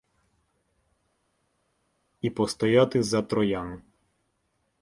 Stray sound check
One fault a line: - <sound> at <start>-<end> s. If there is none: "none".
none